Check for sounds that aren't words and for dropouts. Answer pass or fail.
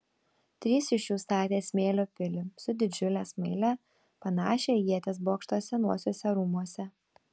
pass